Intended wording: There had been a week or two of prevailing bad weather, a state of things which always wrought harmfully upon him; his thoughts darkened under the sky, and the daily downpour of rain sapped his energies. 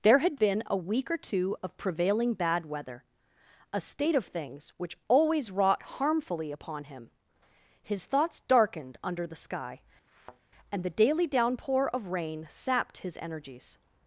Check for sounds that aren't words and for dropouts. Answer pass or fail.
fail